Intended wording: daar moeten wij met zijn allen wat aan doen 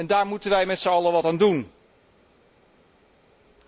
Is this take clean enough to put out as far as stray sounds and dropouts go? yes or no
yes